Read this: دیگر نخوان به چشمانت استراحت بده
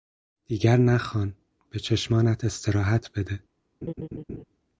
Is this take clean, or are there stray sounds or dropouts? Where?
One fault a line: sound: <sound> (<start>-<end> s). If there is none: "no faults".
sound: laugh (3.8-4.4 s)